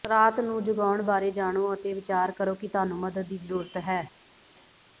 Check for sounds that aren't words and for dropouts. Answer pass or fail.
pass